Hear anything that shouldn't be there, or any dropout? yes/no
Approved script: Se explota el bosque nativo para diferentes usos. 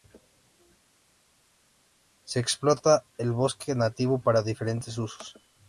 no